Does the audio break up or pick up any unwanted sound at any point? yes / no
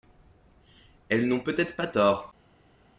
no